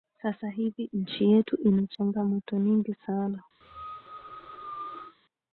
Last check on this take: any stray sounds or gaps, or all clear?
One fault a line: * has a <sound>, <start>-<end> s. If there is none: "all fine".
* has a cough, 3.6-5.2 s